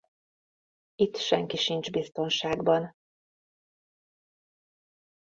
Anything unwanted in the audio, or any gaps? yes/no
no